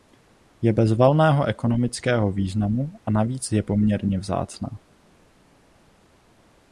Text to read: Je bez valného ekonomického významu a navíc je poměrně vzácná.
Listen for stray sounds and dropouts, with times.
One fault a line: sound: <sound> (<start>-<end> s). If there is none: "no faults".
no faults